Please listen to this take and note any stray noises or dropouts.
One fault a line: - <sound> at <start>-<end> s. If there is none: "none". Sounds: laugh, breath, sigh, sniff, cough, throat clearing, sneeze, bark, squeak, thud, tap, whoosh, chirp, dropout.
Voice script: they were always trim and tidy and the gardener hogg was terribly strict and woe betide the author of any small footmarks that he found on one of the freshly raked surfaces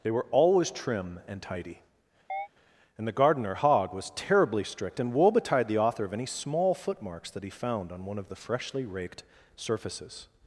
- chirp at 2.3-2.5 s